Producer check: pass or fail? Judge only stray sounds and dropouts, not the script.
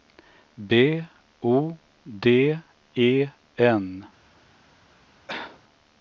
fail